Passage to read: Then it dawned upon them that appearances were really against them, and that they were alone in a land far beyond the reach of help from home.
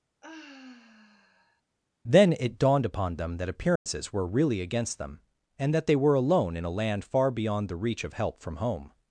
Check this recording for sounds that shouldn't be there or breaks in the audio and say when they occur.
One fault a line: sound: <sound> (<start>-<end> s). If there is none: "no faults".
sound: sigh (0.2-1.6 s)
sound: dropout (3.8-3.9 s)